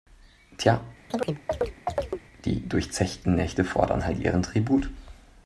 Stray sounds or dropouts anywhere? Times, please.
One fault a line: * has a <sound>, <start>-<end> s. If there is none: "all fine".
* has a chirp, 1.1-2.2 s